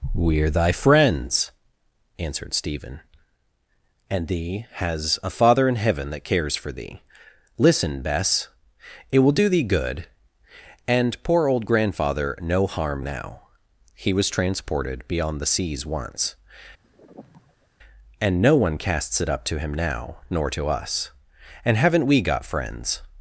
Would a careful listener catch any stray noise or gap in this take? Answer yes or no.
yes